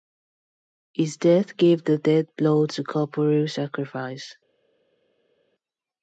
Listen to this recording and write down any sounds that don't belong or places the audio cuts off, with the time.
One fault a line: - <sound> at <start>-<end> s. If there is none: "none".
none